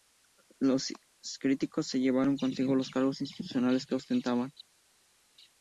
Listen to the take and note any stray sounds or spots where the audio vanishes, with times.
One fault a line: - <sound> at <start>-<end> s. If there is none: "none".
none